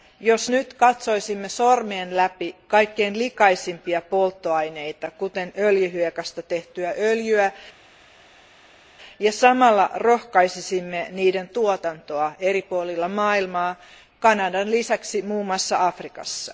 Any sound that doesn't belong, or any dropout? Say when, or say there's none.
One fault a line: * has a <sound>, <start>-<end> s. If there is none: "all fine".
all fine